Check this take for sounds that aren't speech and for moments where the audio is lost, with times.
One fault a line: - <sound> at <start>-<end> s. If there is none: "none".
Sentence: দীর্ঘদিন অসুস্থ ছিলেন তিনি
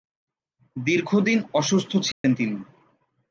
- dropout at 2.1-2.2 s